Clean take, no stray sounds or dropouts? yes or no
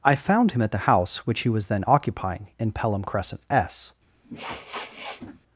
no